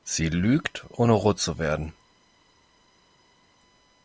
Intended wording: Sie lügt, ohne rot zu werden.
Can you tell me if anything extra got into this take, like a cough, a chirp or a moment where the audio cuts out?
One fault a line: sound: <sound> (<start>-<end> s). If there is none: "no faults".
no faults